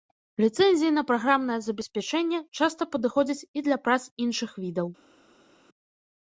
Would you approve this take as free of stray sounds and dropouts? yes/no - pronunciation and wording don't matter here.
yes